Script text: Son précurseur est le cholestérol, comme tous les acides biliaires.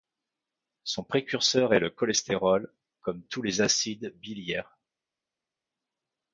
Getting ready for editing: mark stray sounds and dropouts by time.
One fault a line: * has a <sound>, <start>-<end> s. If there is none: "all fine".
all fine